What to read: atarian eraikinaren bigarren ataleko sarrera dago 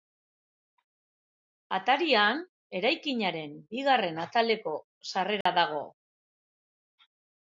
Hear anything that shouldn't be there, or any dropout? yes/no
yes